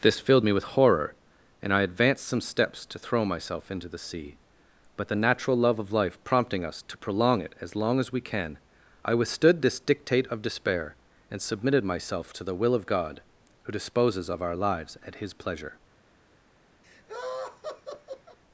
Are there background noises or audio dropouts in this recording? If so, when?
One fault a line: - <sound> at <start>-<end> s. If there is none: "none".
- laugh at 16.8-18.4 s